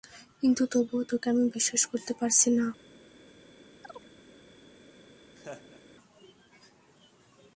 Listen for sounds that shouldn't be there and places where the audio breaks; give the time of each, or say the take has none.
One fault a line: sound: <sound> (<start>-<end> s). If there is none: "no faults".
sound: chirp (3.8-4.1 s)
sound: laugh (5.4-5.8 s)